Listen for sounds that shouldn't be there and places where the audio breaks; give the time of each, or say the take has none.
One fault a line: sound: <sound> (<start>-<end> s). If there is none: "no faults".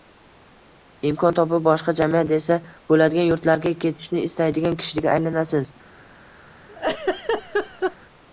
sound: laugh (6.7-8.0 s)